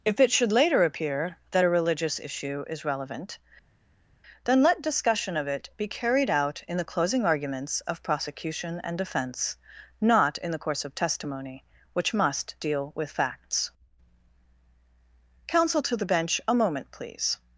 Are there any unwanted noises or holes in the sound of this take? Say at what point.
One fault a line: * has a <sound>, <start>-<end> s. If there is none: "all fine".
all fine